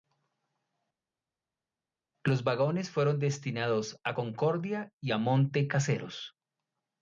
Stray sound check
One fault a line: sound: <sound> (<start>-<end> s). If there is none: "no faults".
no faults